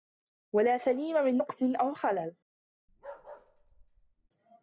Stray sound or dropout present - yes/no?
yes